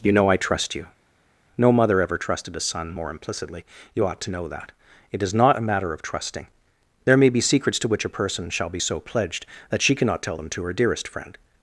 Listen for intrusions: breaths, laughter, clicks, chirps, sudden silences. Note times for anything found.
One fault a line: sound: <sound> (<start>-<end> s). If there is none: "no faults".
no faults